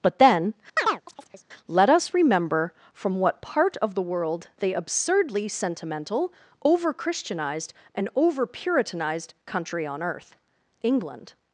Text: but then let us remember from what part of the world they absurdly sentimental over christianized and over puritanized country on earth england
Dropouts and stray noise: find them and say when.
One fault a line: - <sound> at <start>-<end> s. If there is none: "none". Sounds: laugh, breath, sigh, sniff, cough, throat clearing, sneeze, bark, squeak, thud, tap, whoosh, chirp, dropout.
- chirp at 0.8-1.5 s